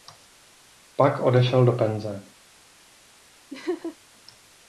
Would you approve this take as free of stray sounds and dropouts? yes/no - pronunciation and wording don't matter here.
no